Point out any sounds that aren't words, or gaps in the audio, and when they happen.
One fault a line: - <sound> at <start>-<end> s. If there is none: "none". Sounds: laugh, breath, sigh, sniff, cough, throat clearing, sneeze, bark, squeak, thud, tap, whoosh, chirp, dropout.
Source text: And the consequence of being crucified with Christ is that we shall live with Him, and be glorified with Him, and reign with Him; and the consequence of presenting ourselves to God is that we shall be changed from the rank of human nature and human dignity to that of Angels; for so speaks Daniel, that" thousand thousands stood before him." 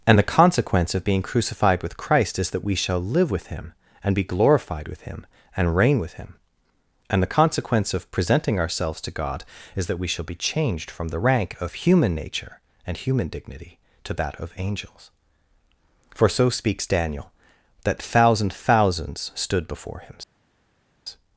none